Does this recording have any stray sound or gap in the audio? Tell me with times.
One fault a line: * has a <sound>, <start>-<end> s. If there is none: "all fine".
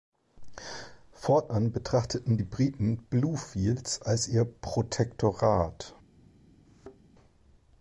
* has a thud, 6.6-7.0 s